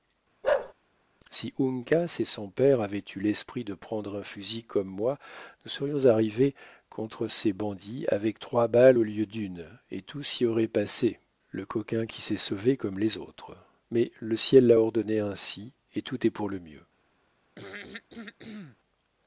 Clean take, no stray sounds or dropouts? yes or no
no